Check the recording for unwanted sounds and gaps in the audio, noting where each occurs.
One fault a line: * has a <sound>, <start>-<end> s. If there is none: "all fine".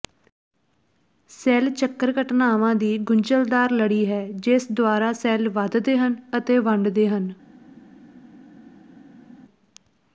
all fine